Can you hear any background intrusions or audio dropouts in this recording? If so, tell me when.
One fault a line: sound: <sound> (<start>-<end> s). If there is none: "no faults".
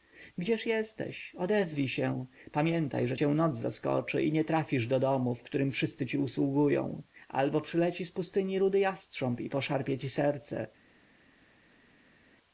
no faults